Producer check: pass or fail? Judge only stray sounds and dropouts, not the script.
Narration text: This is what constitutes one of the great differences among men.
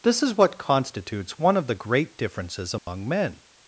fail